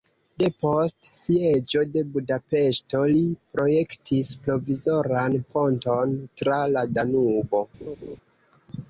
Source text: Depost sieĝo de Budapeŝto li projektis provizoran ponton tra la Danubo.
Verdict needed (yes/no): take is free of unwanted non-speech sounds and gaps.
no